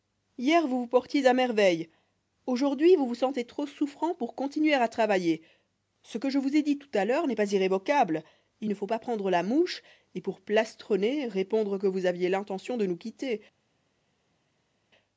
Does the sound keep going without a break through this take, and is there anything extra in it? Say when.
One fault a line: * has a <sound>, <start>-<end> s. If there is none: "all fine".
all fine